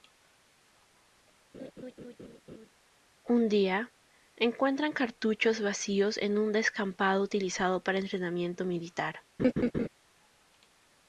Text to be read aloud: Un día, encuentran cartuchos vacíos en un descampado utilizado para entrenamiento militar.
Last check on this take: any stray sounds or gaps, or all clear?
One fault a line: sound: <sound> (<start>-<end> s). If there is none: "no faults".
sound: laugh (1.5-2.7 s)
sound: laugh (9.4-9.9 s)